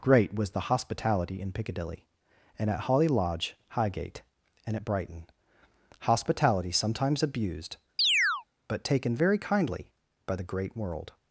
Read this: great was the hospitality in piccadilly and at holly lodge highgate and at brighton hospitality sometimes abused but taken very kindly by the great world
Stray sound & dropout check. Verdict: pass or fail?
fail